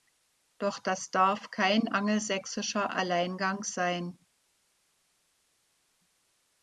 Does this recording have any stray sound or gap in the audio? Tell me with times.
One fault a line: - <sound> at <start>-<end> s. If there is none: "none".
none